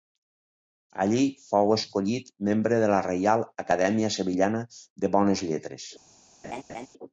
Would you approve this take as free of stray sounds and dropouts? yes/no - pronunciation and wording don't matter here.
no